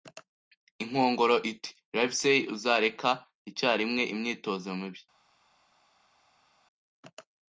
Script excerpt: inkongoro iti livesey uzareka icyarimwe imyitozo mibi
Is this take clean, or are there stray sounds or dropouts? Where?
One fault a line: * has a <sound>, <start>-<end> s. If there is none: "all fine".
all fine